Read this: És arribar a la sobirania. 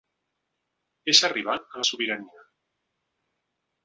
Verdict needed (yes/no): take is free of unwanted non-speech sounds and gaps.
yes